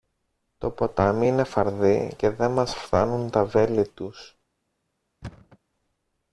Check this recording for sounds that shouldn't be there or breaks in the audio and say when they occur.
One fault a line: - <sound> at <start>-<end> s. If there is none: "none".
- thud at 5.2-5.6 s